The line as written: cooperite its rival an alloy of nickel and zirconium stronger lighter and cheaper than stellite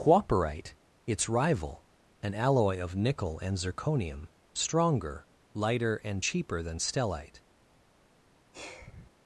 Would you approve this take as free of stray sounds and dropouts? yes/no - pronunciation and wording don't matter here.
no